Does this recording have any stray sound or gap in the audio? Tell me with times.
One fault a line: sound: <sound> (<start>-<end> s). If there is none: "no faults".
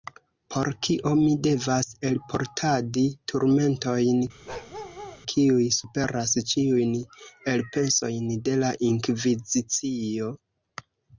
sound: bark (4.5-5.2 s)